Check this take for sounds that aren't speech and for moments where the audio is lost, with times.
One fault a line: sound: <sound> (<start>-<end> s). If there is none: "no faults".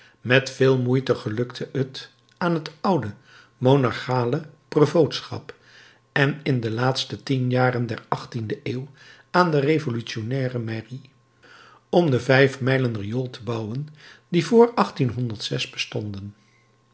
no faults